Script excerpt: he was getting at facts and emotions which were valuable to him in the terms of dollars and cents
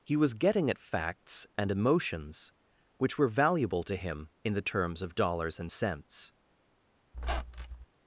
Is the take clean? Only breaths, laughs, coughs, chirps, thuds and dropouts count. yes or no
no